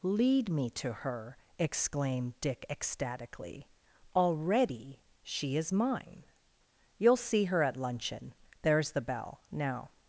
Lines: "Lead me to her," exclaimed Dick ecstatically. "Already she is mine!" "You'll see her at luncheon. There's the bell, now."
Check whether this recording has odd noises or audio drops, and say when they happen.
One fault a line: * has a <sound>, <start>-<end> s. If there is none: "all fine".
all fine